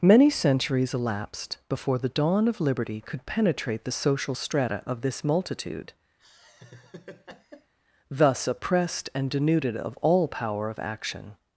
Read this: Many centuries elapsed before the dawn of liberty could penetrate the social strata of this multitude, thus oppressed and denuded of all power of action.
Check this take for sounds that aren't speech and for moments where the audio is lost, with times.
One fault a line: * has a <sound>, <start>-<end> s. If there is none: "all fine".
* has a laugh, 6.2-7.7 s